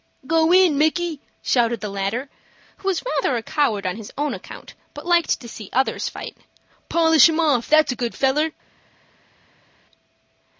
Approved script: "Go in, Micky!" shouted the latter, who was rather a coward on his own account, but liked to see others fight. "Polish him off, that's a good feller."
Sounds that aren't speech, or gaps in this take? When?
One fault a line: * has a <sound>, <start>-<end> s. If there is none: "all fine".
all fine